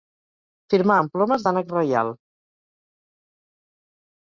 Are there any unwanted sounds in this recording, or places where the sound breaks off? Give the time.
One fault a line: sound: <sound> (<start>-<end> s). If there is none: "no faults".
no faults